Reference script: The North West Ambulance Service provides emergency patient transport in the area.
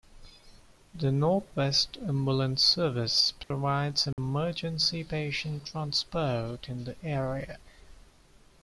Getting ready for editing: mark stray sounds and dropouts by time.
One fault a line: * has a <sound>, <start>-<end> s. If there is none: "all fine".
* has a dropout, 3.4-3.5 s
* has a dropout, 4.1-4.2 s